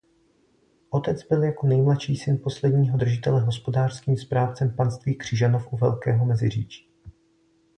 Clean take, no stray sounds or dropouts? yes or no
yes